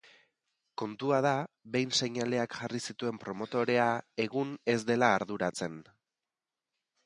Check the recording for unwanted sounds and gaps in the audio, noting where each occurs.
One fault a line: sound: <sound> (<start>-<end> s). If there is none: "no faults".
no faults